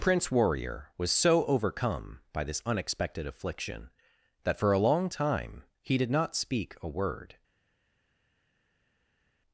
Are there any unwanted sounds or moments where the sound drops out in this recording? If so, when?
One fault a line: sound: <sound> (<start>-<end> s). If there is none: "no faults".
no faults